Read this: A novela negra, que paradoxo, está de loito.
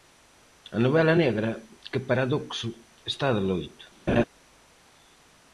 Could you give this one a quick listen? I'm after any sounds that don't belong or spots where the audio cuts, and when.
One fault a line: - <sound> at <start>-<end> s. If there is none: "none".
- laugh at 4.1-4.2 s